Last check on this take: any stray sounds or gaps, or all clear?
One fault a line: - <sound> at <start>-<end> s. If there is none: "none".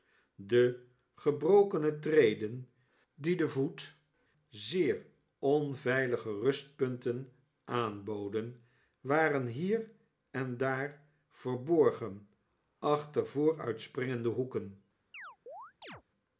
- chirp at 15.1-16.0 s